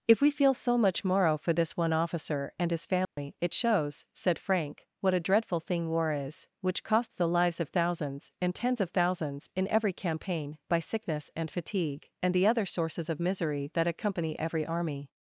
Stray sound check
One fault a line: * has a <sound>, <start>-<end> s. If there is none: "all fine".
* has a dropout, 3.0-3.2 s